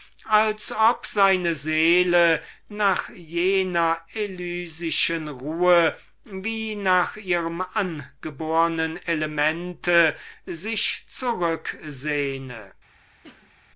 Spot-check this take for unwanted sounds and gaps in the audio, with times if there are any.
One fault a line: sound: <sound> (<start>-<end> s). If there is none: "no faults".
sound: cough (13.2-13.5 s)